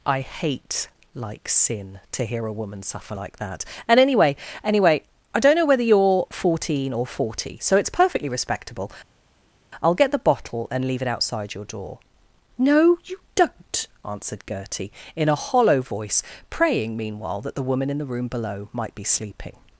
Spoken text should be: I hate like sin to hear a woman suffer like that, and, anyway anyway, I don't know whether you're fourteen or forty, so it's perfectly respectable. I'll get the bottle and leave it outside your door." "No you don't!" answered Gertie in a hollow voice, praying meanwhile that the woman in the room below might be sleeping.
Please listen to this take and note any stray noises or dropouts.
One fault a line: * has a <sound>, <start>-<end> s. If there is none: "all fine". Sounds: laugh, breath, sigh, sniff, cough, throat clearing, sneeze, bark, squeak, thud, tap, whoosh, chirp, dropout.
all fine